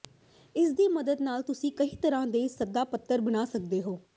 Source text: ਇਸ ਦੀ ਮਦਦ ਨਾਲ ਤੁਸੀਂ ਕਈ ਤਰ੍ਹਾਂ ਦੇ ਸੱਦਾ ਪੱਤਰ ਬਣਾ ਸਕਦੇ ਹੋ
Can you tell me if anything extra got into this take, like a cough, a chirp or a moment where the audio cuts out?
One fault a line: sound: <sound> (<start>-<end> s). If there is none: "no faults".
no faults